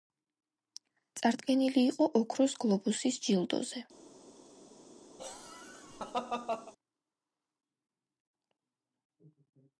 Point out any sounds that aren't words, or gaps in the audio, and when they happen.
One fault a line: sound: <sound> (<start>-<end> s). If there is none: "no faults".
sound: laugh (5.2-6.7 s)